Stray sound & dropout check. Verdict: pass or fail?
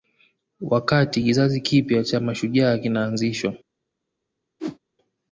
fail